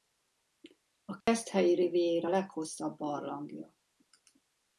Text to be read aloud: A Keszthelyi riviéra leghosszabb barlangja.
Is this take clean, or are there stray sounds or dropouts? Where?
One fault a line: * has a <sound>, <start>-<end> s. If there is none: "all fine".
* has a dropout, 1.2-1.3 s